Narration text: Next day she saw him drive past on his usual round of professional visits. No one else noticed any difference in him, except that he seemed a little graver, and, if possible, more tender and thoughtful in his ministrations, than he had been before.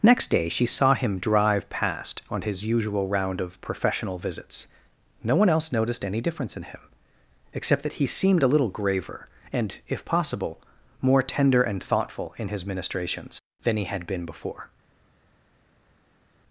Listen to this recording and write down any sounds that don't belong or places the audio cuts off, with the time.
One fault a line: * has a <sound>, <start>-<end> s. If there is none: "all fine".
all fine